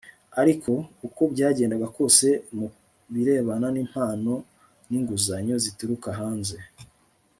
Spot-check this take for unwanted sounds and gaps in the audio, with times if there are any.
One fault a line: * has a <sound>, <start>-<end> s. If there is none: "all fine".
all fine